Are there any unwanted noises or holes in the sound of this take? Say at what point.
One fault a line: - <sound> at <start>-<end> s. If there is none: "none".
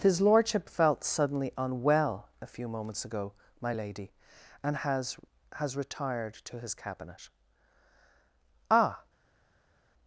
none